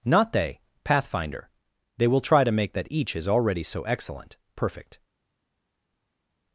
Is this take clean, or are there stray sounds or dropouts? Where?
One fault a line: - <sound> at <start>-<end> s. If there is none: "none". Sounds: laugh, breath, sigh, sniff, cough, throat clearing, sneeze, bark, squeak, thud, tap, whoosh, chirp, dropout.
none